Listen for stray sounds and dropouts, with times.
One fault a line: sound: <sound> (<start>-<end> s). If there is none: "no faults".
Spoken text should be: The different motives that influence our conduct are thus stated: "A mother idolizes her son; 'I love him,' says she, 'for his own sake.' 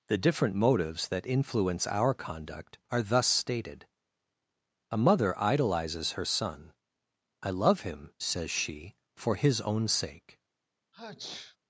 sound: sneeze (10.9-11.6 s)